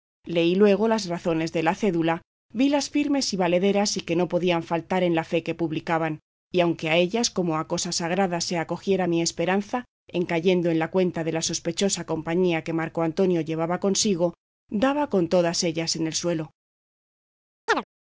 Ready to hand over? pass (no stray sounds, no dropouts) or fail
fail